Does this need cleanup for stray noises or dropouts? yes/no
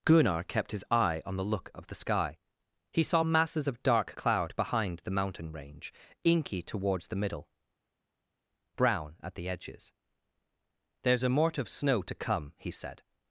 no